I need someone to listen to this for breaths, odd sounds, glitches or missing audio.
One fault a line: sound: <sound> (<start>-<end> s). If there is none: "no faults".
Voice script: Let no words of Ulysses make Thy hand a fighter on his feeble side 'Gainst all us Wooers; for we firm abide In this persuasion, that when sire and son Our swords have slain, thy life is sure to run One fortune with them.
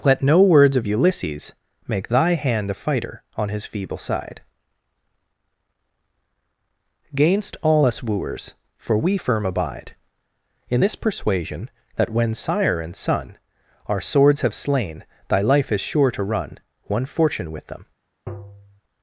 sound: tap (18.3-18.8 s)